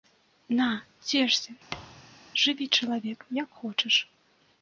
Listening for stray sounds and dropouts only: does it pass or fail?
fail